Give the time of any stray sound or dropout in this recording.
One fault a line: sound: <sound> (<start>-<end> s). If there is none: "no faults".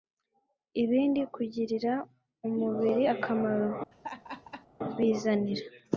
sound: laugh (3.9-4.7 s)